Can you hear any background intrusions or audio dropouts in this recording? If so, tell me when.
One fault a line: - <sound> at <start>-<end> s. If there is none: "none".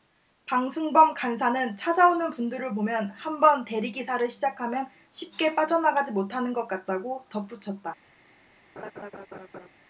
- laugh at 8.8-9.7 s